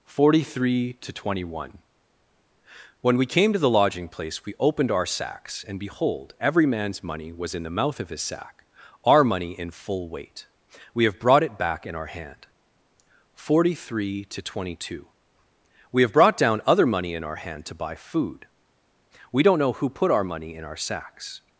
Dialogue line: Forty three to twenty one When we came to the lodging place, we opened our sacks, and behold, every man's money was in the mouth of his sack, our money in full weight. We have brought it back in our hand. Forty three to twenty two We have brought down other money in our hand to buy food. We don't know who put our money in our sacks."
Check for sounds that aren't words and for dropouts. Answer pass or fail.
pass